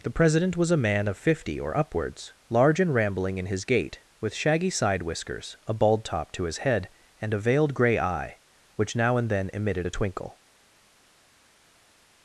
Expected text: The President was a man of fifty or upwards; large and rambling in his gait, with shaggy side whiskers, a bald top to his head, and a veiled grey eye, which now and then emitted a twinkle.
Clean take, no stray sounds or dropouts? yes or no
yes